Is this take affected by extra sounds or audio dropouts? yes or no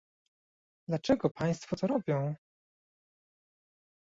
no